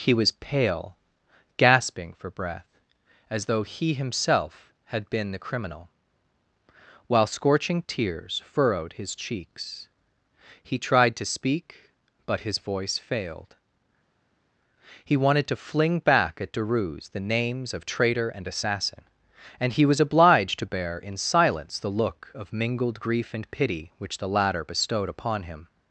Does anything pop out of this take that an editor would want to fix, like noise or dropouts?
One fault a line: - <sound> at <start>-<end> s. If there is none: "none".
none